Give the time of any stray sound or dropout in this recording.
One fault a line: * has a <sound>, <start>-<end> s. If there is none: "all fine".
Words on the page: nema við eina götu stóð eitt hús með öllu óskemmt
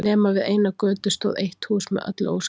all fine